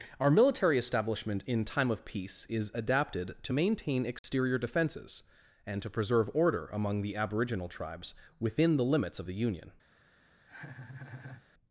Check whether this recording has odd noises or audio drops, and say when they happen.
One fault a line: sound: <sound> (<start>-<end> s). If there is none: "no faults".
sound: dropout (4.2-4.2 s)
sound: laugh (10.5-11.5 s)